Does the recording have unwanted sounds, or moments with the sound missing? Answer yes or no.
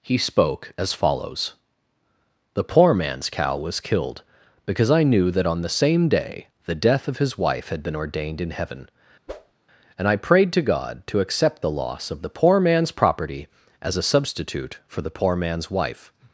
yes